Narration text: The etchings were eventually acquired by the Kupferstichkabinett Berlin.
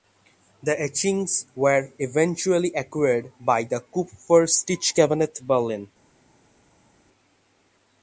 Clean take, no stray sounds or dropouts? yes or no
yes